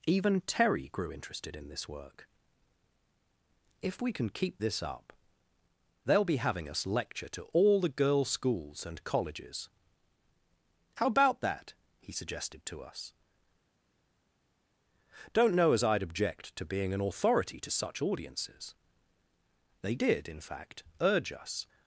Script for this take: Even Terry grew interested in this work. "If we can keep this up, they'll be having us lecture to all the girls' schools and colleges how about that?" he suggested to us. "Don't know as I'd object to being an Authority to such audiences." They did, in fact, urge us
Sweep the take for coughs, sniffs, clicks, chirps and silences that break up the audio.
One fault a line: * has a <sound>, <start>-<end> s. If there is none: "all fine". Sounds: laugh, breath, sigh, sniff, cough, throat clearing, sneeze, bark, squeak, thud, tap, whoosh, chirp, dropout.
all fine